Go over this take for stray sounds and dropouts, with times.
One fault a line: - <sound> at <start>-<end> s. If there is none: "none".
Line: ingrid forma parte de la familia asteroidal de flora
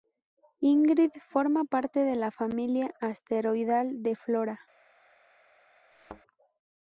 - thud at 5.9-6.2 s